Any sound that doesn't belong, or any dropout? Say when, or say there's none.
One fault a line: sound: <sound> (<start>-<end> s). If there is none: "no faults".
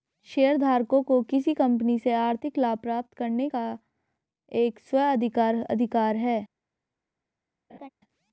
sound: laugh (7.7-7.9 s)